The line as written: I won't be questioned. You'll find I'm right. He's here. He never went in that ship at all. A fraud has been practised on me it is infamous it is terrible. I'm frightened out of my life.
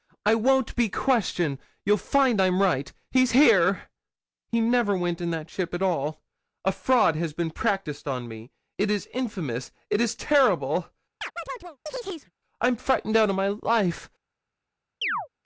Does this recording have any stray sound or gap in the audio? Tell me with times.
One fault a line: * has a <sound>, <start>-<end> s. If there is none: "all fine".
* has a chirp, 11.2-12.3 s
* has a chirp, 15.0-15.3 s